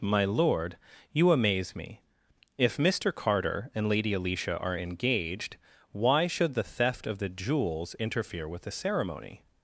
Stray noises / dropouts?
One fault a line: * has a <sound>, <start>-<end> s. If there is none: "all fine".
all fine